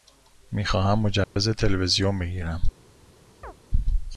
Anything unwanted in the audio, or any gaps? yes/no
yes